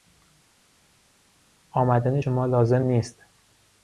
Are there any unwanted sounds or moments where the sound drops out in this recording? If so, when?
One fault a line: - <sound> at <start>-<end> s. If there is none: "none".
none